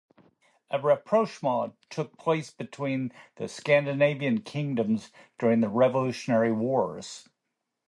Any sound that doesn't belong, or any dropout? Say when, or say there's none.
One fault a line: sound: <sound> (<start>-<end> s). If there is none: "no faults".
no faults